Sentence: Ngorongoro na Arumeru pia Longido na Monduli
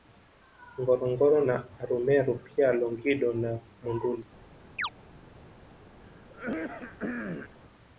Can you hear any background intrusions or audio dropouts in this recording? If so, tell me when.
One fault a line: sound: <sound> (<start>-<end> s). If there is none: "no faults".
sound: chirp (4.8-4.9 s)
sound: throat clearing (6.0-7.6 s)